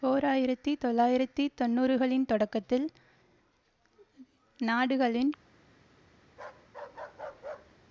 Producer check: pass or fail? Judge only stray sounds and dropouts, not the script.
fail